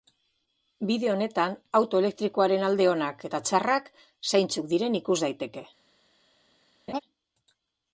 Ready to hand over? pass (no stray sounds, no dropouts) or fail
fail